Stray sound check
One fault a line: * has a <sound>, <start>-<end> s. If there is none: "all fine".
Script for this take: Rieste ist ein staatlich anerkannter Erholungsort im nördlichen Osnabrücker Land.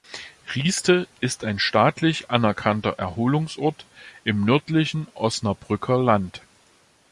all fine